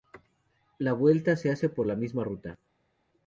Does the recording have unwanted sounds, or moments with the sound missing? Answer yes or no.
no